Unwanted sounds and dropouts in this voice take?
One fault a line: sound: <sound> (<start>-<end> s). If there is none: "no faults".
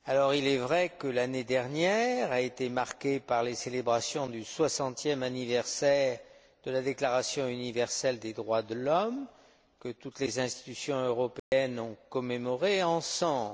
sound: dropout (11.4-11.5 s)